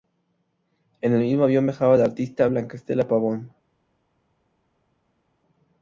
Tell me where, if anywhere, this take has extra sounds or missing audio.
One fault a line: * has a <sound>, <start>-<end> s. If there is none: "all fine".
all fine